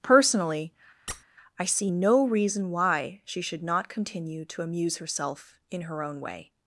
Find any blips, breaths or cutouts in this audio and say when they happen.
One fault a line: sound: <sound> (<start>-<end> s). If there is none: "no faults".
sound: squeak (1.1-1.2 s)